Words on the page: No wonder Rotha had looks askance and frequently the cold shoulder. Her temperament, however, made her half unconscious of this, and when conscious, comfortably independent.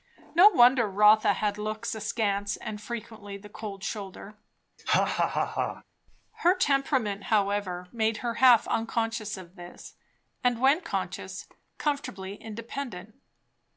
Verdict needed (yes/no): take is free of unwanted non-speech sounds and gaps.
no